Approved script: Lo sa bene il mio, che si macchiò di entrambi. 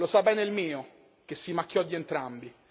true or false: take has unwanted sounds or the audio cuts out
false